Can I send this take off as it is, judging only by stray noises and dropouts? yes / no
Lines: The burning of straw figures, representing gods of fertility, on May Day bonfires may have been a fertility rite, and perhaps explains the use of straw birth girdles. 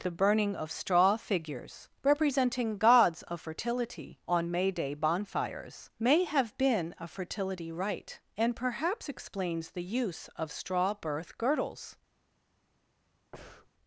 no